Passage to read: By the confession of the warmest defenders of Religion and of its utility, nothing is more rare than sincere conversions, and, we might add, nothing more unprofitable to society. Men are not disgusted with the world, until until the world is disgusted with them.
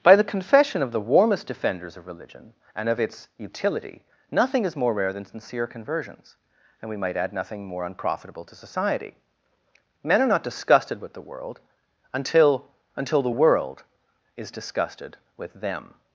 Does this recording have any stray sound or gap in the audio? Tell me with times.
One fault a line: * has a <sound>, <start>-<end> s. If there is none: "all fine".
all fine